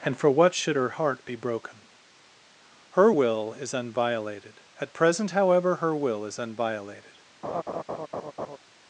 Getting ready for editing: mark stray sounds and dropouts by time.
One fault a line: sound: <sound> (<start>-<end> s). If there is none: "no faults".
sound: laugh (7.4-8.6 s)